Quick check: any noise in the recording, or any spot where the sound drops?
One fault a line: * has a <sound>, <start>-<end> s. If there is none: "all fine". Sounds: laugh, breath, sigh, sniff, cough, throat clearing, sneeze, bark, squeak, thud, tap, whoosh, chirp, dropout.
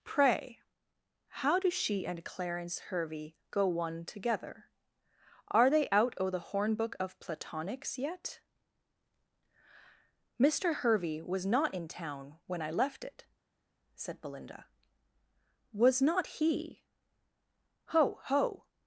all fine